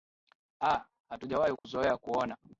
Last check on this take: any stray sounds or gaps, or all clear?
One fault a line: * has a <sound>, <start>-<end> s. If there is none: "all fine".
* has a dropout, 1.6-1.6 s